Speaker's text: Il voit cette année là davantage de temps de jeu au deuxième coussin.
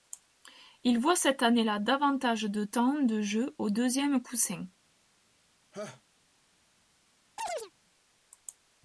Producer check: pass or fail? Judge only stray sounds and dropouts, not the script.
fail